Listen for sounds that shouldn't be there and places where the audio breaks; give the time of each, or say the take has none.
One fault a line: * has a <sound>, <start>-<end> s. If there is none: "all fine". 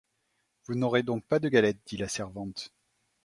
all fine